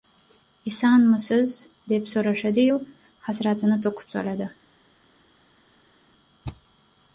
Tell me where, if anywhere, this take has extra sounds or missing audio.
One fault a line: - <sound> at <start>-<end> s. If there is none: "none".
none